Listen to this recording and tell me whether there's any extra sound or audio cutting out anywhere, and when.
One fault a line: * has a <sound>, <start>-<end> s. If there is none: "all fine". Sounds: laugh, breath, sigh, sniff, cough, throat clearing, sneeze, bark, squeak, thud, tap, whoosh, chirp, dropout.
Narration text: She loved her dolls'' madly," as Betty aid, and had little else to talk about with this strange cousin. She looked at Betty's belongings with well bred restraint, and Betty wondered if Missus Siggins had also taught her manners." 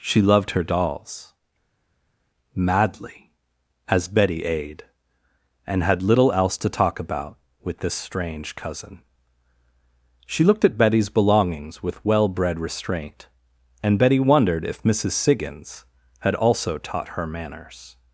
all fine